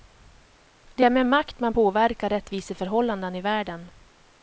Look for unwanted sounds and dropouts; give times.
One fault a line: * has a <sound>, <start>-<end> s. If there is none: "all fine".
all fine